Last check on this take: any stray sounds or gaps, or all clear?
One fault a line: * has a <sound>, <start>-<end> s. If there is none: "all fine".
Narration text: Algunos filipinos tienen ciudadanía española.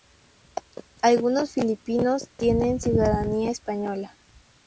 all fine